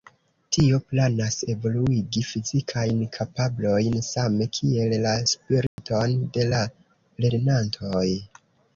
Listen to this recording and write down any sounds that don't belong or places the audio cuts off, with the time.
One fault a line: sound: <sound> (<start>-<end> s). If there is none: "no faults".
sound: dropout (5.7-5.8 s)